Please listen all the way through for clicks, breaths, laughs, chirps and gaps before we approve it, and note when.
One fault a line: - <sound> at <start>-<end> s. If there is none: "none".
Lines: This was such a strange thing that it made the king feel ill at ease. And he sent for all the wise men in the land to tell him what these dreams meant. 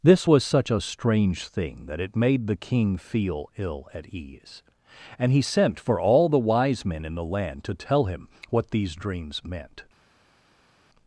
none